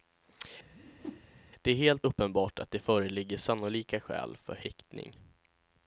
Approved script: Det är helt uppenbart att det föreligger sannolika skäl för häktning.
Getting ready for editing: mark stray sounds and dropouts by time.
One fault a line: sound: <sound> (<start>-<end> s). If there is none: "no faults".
sound: whoosh (0.7-1.3 s)